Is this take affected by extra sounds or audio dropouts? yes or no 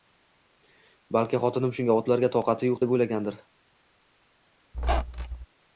yes